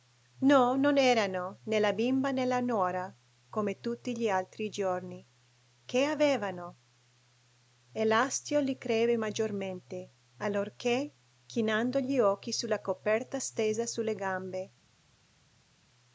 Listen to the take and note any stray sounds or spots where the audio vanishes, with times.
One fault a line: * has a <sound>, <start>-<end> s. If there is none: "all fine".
all fine